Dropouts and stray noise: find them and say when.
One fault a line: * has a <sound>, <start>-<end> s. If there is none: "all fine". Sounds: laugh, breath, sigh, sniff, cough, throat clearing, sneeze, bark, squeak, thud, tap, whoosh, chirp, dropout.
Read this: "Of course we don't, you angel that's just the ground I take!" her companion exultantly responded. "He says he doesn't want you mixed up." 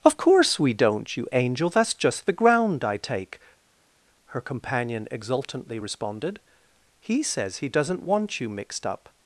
all fine